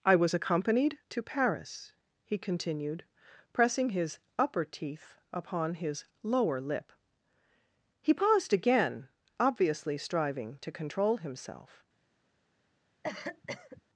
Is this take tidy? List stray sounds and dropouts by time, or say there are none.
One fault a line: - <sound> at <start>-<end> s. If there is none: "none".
- cough at 13.0-13.8 s